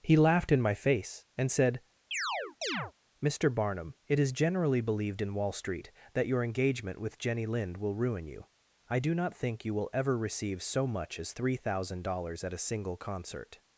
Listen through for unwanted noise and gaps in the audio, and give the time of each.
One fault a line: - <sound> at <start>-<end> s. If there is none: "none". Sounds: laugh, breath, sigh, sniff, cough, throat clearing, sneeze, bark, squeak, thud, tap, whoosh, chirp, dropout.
- chirp at 2.1-2.9 s